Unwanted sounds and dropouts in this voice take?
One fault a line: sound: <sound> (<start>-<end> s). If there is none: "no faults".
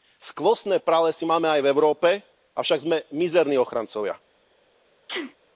sound: sneeze (5.1-5.4 s)